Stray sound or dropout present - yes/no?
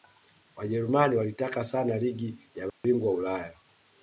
yes